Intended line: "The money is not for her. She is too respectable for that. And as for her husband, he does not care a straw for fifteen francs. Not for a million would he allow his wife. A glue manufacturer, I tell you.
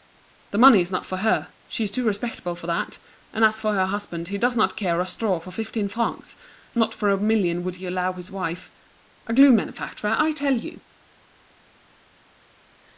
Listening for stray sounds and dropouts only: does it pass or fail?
pass